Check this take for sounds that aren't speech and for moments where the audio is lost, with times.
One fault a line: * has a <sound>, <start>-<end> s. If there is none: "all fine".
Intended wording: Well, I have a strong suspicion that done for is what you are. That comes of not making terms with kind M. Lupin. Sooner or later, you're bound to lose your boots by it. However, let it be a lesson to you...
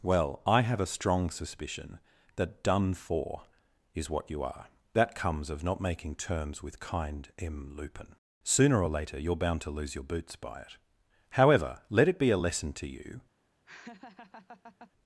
* has a laugh, 13.7-14.9 s